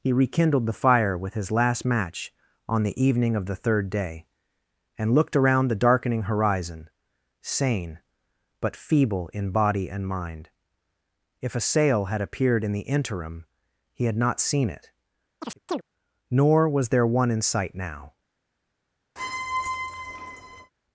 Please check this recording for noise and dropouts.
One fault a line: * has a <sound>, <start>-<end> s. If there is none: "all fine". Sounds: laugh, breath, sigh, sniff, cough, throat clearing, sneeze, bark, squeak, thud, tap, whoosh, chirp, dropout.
* has a chirp, 15.4-15.8 s
* has a squeak, 19.2-20.7 s